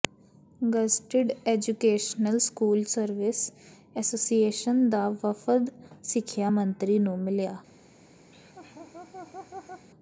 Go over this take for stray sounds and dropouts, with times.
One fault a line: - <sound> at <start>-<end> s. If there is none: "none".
- laugh at 8.3-9.9 s